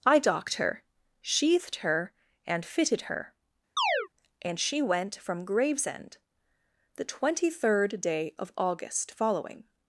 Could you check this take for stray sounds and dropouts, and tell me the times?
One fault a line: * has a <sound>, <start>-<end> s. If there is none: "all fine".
* has a chirp, 3.8-4.1 s